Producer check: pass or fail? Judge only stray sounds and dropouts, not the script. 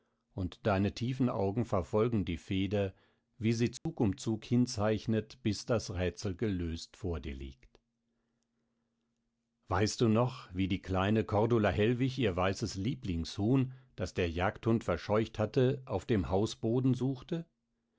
fail